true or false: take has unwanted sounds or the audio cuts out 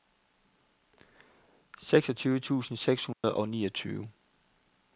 true